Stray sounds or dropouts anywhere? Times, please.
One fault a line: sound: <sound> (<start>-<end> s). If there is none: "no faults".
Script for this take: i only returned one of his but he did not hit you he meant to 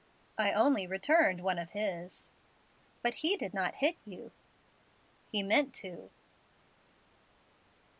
no faults